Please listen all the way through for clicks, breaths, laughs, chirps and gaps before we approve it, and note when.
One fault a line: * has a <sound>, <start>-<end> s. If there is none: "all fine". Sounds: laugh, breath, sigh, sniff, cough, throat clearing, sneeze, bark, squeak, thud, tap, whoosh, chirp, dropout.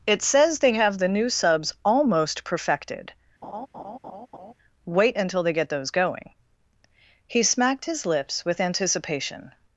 * has a laugh, 3.4-4.5 s